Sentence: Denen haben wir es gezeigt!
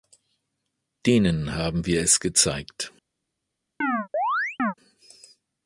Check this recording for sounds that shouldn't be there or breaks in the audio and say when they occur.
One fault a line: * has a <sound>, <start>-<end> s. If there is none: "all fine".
* has a chirp, 3.8-4.7 s